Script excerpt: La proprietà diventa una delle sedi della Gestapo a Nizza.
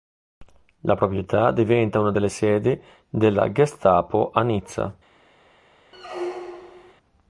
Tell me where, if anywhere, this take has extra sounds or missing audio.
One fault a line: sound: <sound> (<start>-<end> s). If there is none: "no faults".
sound: squeak (5.9-6.9 s)